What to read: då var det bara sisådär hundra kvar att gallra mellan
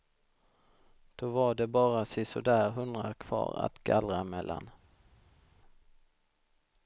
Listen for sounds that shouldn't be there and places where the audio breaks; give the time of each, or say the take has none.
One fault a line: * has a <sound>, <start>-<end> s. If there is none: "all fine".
all fine